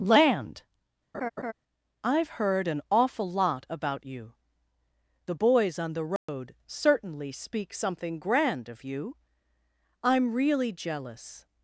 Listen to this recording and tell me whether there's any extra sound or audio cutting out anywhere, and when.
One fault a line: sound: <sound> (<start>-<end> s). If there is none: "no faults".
sound: laugh (1.1-1.5 s)
sound: dropout (6.2-6.3 s)